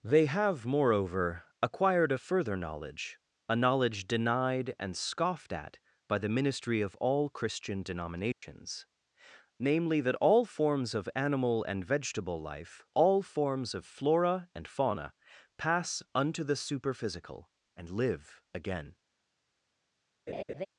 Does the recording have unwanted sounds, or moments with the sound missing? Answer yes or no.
yes